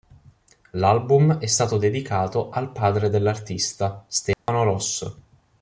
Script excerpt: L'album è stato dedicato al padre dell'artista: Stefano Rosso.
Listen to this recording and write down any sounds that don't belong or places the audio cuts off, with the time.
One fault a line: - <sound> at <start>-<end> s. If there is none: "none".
- dropout at 4.3-4.5 s